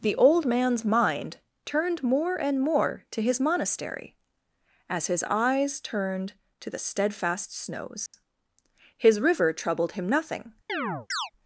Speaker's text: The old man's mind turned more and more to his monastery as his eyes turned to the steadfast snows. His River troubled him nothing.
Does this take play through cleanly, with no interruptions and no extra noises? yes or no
no